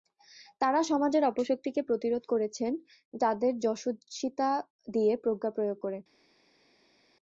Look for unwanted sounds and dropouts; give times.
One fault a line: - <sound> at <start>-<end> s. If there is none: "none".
none